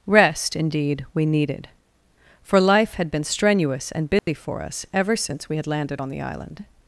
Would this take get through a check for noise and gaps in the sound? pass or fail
fail